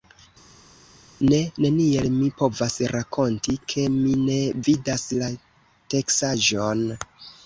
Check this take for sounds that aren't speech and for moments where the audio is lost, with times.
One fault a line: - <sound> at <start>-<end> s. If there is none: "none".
none